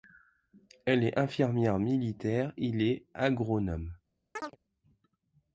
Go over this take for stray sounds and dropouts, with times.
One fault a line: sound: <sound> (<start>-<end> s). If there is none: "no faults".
sound: chirp (4.4-4.6 s)